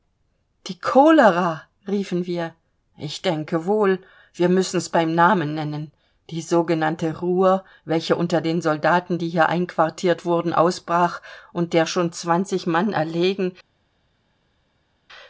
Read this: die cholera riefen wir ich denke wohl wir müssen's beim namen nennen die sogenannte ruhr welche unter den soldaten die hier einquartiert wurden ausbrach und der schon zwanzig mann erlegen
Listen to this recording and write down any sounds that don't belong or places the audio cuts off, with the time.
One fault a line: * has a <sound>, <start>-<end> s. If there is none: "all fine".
all fine